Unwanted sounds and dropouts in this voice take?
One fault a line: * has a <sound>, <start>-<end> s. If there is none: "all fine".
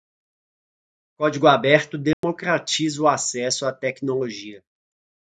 * has a dropout, 2.1-2.2 s